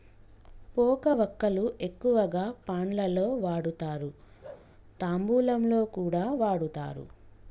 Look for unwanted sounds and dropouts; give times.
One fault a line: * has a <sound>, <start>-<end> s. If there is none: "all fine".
* has a bark, 4.4-4.7 s